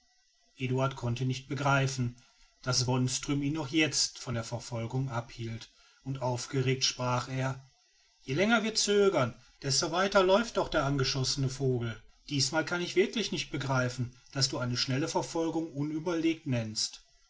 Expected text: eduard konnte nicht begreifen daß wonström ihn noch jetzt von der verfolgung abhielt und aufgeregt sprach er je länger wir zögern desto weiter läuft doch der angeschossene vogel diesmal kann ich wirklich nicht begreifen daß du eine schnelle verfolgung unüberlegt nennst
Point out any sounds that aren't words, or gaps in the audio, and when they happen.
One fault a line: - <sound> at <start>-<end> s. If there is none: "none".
none